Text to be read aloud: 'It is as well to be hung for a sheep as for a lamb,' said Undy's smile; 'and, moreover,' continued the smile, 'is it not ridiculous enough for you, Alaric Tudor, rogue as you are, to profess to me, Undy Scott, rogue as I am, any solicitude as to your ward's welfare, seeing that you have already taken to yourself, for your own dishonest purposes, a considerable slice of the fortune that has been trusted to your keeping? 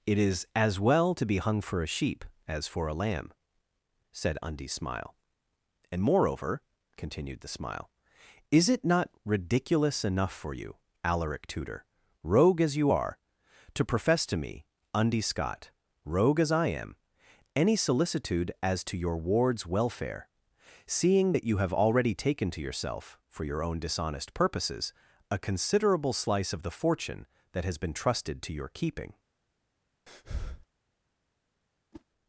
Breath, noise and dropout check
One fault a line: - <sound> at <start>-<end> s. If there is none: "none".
- breath at 30.1-30.7 s
- whoosh at 31.9-32.1 s